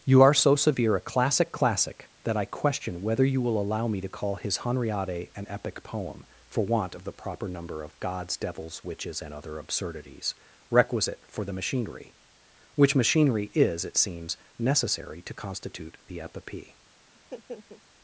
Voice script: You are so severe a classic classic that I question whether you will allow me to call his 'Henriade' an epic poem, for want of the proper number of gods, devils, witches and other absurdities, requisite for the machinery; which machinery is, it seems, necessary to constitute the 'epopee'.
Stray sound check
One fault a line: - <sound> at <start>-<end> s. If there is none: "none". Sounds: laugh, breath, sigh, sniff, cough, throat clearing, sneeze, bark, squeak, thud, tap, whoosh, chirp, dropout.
- laugh at 17.1-17.8 s